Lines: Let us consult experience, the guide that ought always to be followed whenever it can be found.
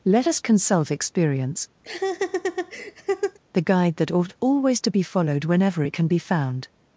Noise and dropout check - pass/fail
fail